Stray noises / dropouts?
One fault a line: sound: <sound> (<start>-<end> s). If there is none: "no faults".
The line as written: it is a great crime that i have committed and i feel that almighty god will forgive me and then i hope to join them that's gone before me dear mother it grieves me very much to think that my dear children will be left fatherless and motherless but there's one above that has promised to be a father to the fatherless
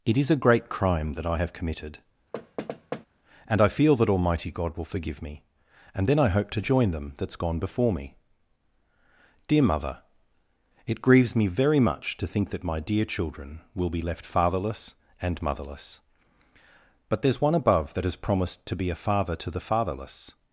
sound: thud (2.3-3.1 s)